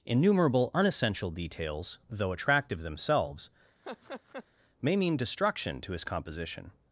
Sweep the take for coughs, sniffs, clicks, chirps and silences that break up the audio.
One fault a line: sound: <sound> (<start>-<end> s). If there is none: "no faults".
sound: laugh (3.8-4.4 s)